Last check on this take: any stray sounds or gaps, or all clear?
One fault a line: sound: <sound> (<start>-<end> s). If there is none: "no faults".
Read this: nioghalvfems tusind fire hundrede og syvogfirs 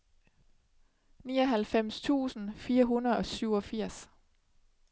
no faults